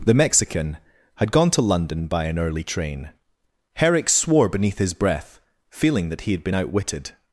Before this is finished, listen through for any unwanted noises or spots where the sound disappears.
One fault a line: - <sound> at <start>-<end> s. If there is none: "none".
none